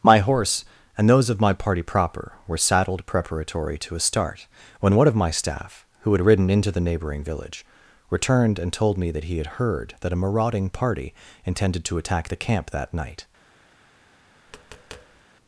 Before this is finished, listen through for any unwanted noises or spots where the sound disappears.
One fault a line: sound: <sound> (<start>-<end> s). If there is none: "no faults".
sound: tap (14.5-15.2 s)